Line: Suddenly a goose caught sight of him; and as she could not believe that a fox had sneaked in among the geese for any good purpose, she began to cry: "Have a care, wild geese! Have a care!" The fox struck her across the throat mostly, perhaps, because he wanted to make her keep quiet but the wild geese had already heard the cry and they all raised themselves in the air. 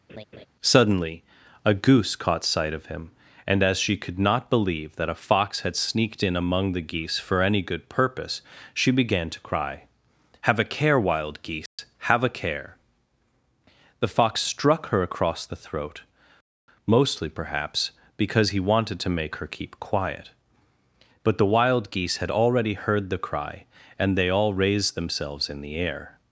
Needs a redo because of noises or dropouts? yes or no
yes